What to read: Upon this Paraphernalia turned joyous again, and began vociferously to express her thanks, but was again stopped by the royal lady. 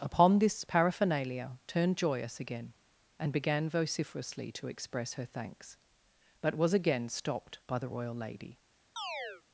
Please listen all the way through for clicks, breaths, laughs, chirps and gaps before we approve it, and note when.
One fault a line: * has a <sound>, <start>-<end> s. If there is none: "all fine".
* has a chirp, 9.0-9.4 s